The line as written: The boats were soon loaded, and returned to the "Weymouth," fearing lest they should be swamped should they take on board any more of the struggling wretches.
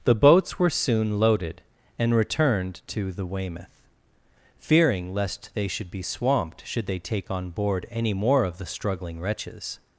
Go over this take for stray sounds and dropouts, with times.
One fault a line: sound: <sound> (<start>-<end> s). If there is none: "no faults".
no faults